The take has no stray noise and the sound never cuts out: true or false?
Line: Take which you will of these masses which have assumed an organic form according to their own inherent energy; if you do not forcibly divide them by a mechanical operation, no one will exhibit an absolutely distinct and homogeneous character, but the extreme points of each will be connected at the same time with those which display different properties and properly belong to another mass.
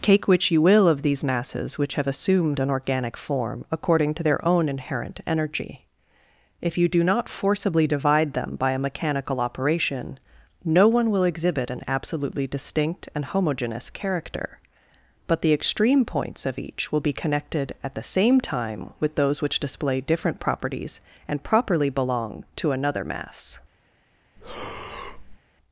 false